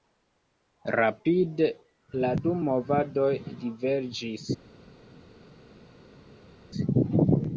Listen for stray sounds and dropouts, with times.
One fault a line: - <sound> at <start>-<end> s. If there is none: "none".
none